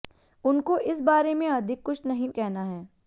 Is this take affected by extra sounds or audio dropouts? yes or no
no